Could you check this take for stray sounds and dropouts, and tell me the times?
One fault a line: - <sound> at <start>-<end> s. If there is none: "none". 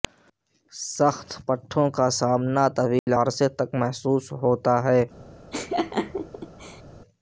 - dropout at 3.0-3.1 s
- laugh at 5.5-6.8 s